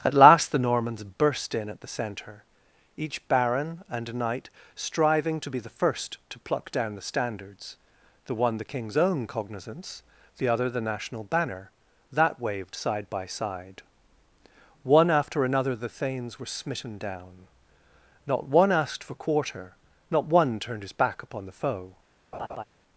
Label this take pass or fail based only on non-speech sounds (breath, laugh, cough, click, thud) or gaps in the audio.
fail